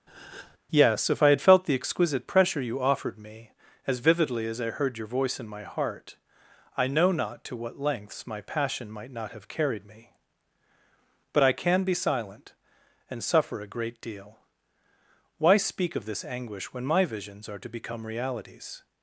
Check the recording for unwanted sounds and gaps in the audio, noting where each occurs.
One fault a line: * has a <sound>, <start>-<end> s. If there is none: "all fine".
* has a breath, 0.1-0.6 s